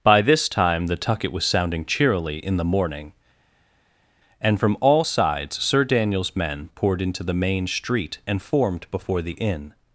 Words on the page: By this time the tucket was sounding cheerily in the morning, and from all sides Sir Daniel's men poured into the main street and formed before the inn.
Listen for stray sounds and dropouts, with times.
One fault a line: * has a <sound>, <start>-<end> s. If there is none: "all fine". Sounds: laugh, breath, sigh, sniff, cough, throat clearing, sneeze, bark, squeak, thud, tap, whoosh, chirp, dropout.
all fine